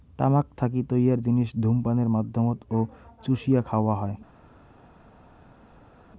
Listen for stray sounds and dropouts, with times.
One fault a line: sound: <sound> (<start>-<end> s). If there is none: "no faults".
no faults